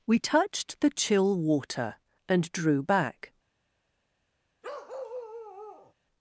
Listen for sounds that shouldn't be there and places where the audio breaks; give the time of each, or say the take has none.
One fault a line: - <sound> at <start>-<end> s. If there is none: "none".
- bark at 4.6-5.9 s